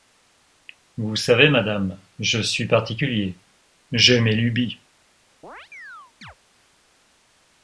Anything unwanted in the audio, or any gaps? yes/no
yes